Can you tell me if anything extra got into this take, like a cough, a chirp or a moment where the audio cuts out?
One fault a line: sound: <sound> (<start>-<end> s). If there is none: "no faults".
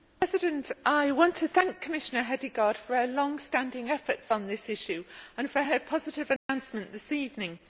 sound: dropout (6.4-6.5 s)